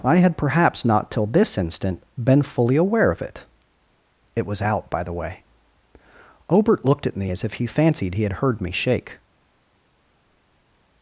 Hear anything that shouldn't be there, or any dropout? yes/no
no